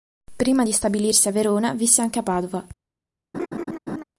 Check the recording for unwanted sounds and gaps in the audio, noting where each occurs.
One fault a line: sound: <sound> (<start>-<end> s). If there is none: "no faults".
sound: laugh (3.3-4.0 s)